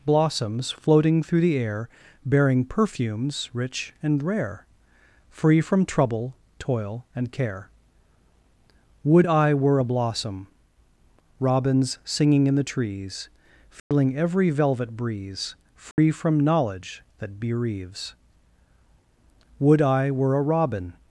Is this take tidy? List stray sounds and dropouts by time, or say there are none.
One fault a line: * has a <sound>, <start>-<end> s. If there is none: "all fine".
* has a dropout, 13.8-13.9 s
* has a dropout, 15.9-16.0 s